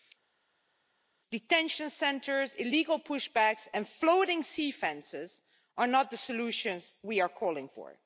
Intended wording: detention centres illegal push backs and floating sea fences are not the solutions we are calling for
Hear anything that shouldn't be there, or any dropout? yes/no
no